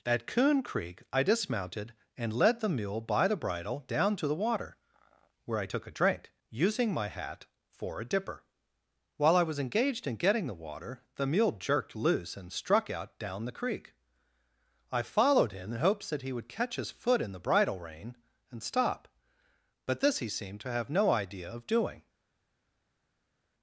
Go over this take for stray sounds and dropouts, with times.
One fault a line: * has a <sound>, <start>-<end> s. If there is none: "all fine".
all fine